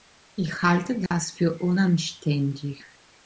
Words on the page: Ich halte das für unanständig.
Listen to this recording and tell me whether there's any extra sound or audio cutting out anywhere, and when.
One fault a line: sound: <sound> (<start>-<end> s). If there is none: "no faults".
sound: dropout (1.1-1.1 s)